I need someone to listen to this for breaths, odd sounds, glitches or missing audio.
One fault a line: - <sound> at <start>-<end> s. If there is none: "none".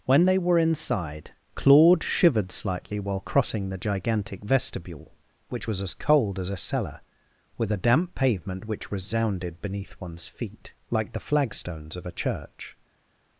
none